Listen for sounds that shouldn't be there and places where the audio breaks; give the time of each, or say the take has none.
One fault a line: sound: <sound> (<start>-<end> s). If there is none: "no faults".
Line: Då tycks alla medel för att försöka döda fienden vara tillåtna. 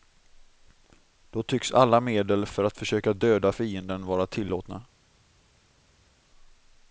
no faults